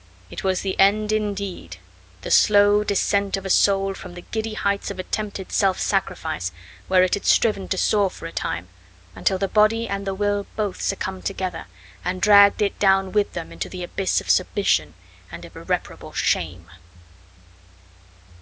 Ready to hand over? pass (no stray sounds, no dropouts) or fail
pass